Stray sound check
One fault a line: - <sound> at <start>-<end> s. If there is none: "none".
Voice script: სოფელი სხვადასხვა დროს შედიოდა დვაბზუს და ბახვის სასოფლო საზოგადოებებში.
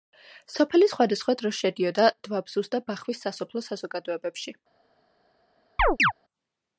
- chirp at 5.8-6.1 s